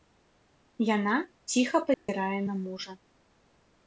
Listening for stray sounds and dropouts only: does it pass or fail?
fail